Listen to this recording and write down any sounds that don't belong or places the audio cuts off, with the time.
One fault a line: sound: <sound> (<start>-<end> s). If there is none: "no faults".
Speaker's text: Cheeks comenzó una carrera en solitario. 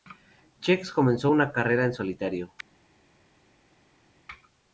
no faults